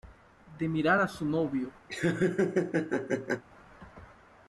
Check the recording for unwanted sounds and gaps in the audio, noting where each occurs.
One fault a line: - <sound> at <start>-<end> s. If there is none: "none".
- laugh at 1.9-3.4 s